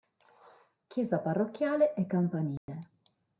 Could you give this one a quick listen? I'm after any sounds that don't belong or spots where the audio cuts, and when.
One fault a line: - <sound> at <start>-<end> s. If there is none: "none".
- dropout at 2.6-2.7 s